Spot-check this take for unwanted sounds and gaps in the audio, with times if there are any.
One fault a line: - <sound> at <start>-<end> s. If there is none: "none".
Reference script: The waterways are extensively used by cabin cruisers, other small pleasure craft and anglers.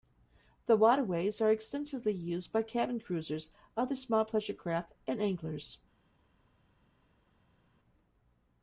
none